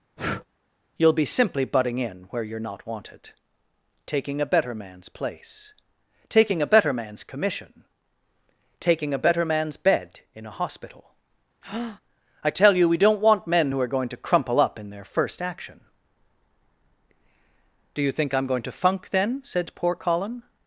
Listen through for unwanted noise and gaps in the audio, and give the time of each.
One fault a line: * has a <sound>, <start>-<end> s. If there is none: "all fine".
* has a breath, 0.2-0.5 s
* has a breath, 11.6-12.0 s